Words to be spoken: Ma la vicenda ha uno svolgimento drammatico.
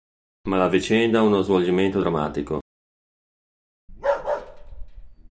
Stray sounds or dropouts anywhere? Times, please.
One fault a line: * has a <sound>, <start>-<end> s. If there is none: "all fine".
* has a bark, 3.9-5.3 s